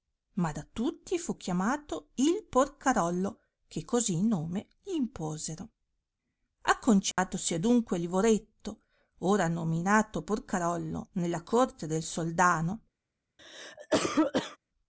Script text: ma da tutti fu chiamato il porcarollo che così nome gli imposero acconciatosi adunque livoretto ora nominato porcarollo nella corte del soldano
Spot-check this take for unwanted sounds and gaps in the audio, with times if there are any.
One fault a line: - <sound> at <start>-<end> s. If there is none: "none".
- dropout at 7.1-7.2 s
- cough at 13.4-14.6 s